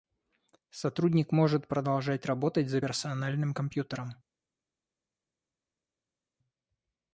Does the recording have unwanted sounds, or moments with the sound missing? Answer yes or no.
no